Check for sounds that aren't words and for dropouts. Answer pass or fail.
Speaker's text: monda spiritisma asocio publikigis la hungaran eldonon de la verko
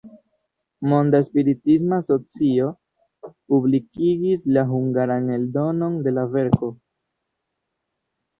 pass